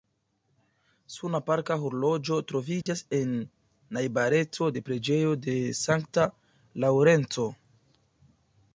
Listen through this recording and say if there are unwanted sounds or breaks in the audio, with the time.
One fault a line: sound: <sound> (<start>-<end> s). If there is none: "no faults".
sound: dropout (2.8-2.9 s)